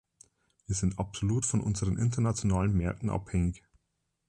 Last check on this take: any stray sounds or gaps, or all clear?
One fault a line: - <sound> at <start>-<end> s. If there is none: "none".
none